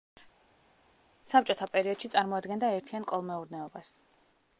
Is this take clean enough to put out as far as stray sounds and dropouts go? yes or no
yes